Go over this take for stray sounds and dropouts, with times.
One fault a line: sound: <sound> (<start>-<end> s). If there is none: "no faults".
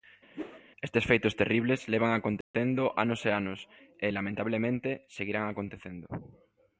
sound: whoosh (0.3-0.6 s)
sound: dropout (2.4-2.5 s)